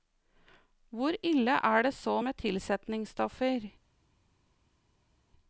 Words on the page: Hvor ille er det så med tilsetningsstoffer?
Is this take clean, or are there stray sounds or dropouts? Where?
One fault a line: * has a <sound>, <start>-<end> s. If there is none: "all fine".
all fine